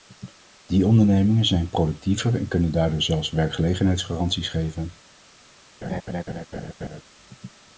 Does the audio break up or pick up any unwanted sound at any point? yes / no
yes